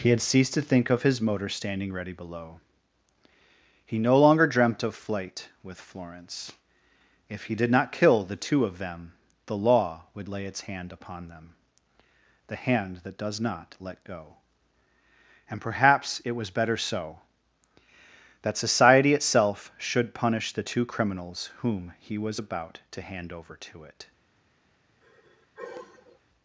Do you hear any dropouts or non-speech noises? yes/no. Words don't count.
yes